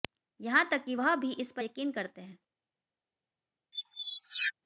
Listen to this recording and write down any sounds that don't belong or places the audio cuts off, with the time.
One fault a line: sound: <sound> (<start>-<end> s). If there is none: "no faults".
sound: squeak (3.7-4.5 s)